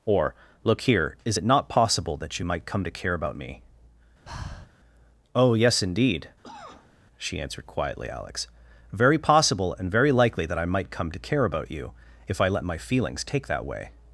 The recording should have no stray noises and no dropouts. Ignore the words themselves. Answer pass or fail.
fail